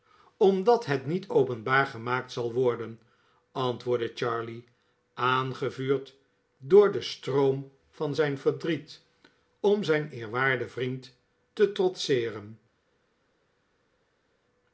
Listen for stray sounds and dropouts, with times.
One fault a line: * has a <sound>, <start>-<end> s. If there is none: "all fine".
all fine